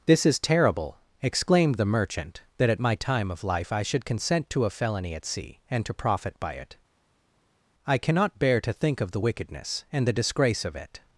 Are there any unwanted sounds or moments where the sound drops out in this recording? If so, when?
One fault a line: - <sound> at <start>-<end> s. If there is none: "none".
none